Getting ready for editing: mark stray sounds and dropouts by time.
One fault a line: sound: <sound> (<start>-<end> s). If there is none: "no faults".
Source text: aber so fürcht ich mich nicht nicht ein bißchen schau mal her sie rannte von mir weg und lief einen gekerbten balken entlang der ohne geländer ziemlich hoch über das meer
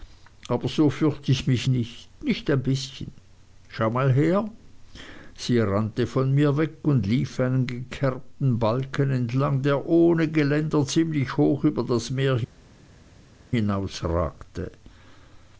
no faults